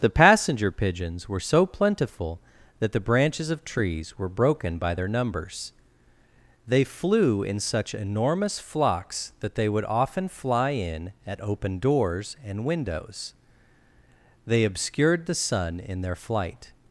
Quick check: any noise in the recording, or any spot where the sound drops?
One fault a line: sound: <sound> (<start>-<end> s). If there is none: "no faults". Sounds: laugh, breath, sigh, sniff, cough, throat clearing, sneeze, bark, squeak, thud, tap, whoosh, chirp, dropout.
no faults